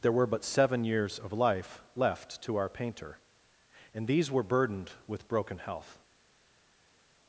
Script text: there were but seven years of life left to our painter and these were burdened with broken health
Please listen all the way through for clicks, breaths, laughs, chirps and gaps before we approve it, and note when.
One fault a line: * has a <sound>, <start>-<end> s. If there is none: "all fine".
all fine